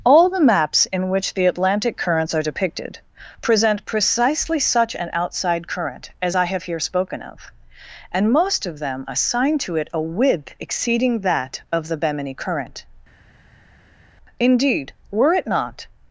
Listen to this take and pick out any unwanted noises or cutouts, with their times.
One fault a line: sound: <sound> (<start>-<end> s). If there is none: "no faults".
no faults